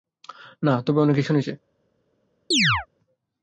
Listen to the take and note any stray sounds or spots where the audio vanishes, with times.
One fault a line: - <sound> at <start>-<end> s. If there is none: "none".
- chirp at 2.5-2.9 s